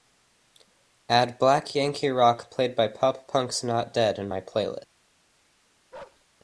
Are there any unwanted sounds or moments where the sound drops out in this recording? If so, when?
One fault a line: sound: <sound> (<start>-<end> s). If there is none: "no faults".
sound: bark (5.9-6.2 s)